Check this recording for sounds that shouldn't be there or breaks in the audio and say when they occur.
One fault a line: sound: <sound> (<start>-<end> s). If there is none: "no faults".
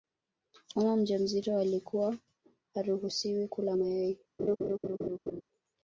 sound: laugh (4.4-5.4 s)